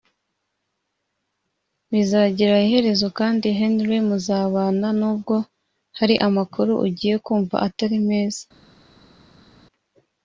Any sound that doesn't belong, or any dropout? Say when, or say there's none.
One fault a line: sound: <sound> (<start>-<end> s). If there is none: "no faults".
no faults